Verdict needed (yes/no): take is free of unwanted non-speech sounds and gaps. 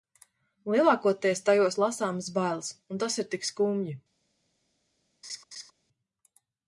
no